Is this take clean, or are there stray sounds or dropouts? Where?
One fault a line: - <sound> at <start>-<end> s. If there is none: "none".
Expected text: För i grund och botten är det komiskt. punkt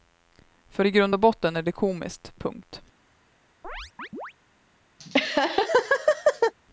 - chirp at 3.6-4.3 s
- laugh at 5.0-6.5 s